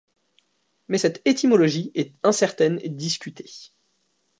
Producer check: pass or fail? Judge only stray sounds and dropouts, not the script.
pass